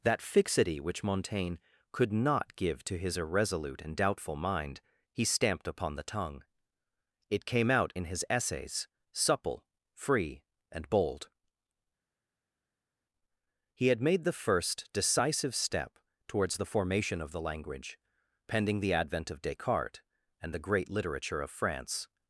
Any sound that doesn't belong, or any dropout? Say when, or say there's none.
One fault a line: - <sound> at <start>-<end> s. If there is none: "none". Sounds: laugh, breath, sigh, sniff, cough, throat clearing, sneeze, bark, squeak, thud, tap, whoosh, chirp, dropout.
none